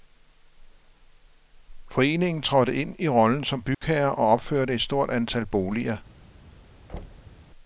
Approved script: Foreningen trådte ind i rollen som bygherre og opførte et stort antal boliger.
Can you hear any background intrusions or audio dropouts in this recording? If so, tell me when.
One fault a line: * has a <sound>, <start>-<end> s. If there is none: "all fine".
* has a dropout, 3.7-3.8 s
* has a thud, 6.9-7.4 s